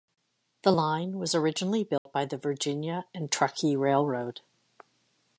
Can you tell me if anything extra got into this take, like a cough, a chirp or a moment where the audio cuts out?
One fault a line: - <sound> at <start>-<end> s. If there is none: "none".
- dropout at 2.0-2.1 s